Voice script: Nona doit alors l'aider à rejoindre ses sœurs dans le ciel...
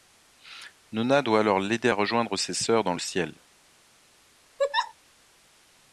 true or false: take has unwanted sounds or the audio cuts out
true